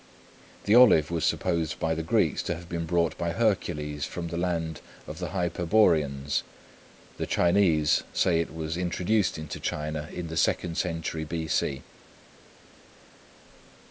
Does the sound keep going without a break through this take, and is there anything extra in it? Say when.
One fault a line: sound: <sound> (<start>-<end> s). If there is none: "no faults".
no faults